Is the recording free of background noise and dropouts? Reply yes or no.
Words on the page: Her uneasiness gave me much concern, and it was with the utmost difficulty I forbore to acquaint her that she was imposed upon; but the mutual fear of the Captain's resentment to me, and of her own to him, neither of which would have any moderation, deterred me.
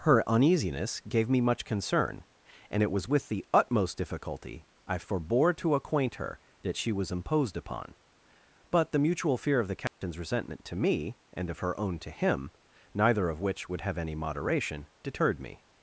no